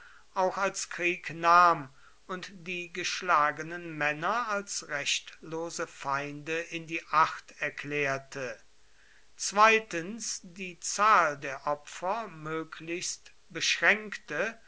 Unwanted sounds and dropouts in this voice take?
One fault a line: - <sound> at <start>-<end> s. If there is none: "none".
none